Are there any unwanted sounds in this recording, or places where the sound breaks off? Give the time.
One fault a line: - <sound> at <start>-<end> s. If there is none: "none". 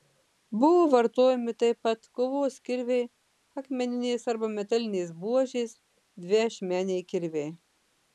none